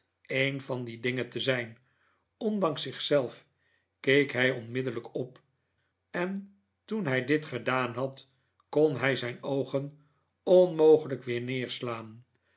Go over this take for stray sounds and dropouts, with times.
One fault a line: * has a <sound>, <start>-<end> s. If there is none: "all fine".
all fine